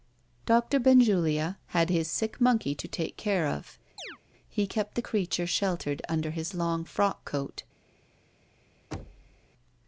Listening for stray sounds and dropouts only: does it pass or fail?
fail